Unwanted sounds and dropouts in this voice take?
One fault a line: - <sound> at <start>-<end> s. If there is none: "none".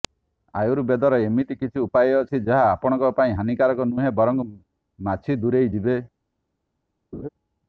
- laugh at 7.1-7.3 s